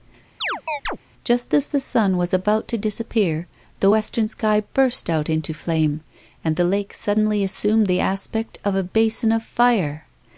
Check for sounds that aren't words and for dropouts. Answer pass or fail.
fail